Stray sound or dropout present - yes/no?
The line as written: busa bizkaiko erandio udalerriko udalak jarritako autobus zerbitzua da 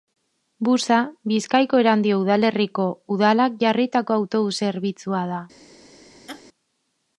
yes